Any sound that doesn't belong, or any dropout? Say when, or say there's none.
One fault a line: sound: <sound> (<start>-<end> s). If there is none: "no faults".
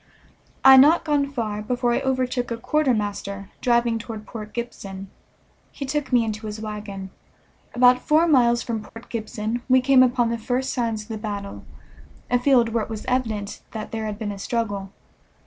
sound: dropout (8.9-9.0 s)